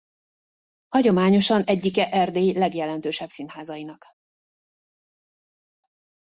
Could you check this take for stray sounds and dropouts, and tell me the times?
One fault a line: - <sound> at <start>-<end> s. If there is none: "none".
none